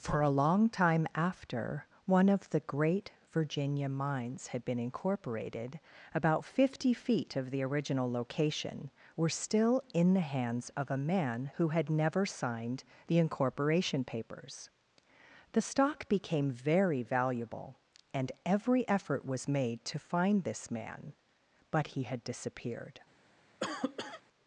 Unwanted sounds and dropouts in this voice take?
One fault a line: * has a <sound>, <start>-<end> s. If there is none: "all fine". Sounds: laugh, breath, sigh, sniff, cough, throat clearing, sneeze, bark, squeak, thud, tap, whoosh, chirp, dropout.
* has a cough, 23.6-24.2 s